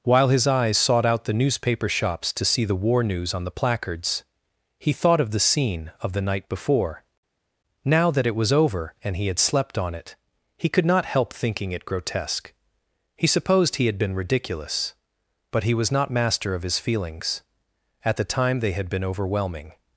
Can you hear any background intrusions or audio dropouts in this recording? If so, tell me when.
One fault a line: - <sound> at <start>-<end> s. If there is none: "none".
none